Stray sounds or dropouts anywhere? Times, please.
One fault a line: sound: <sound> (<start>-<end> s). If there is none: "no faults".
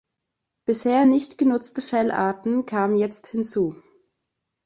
no faults